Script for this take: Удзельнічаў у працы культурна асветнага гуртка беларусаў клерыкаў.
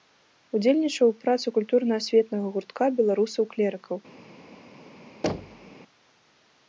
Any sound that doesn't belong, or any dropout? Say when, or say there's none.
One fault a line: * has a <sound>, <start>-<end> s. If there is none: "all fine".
* has a thud, 5.2-5.7 s